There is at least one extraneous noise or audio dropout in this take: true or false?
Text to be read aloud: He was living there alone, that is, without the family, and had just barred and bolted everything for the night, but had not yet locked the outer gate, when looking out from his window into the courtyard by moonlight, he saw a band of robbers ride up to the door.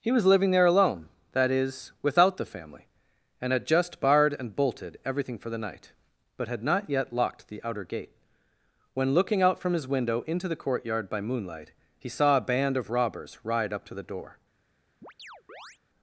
true